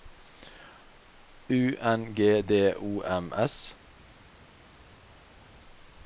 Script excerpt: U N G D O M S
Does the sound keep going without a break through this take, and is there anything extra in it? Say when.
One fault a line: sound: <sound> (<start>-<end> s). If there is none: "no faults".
no faults